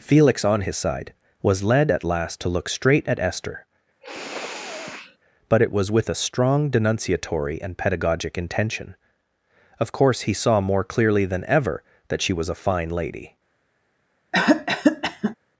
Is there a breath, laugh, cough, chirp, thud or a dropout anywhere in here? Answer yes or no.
yes